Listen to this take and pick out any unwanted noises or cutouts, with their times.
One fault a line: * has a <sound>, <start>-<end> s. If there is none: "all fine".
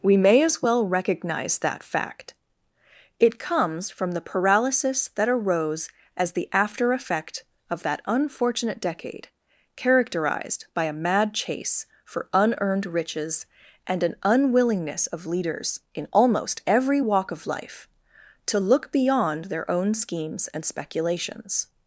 all fine